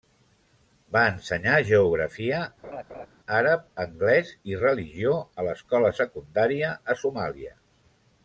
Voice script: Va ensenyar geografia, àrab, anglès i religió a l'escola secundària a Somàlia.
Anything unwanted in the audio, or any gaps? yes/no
yes